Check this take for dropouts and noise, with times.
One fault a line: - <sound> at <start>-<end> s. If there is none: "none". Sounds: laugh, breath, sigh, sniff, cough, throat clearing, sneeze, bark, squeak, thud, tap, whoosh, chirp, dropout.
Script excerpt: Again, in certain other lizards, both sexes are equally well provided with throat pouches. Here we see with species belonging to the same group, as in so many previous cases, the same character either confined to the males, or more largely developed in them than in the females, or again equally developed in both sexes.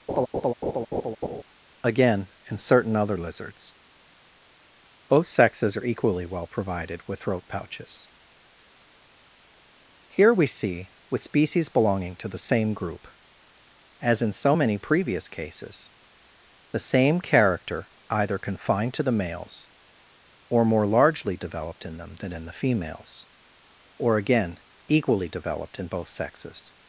- laugh at 0.1-1.4 s